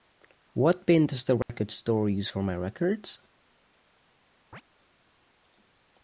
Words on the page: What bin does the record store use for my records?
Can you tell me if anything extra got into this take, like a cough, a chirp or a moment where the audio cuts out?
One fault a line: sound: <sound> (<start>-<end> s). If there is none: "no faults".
sound: dropout (1.4-1.5 s)
sound: chirp (4.5-4.6 s)